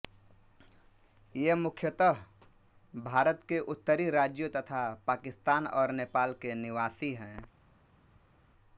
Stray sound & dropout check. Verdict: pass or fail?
pass